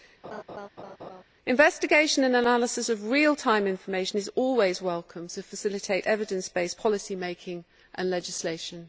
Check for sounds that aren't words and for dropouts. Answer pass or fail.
fail